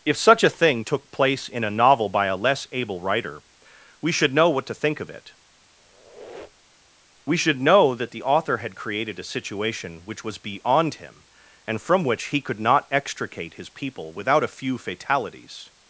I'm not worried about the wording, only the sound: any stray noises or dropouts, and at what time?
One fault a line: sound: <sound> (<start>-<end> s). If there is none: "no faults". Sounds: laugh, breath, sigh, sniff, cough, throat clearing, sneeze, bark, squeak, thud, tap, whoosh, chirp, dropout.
sound: squeak (5.8-6.9 s)